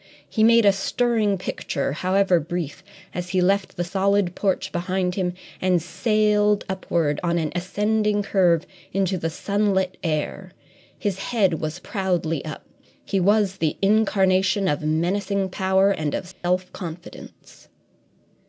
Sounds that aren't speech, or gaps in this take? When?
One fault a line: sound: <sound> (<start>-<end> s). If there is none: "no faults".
sound: dropout (16.3-16.4 s)